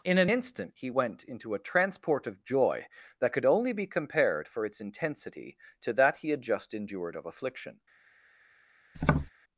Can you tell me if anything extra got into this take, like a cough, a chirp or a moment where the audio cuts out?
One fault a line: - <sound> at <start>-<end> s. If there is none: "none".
- tap at 8.9-9.3 s